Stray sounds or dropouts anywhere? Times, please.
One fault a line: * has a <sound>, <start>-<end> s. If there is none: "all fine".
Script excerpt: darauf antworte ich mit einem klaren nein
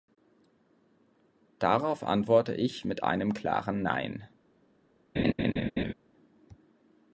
* has a laugh, 5.2-5.9 s